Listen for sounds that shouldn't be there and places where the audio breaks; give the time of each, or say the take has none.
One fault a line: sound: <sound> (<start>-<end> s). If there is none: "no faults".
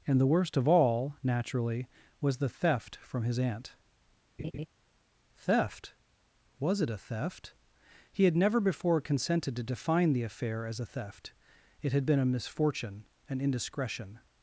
sound: laugh (4.4-4.7 s)